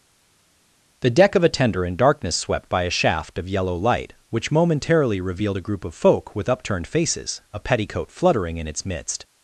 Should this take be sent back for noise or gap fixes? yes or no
no